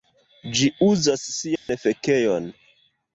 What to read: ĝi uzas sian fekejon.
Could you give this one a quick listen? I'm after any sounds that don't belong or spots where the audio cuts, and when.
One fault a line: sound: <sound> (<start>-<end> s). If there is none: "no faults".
sound: dropout (1.6-1.7 s)